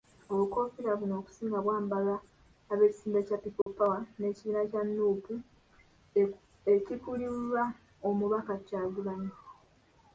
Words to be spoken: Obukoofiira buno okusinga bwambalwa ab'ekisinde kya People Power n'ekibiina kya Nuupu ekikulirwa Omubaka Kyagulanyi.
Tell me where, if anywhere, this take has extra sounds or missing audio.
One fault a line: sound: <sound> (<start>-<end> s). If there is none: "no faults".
sound: dropout (3.6-3.7 s)